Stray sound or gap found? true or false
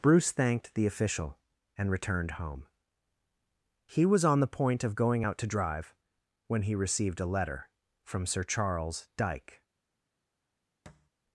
true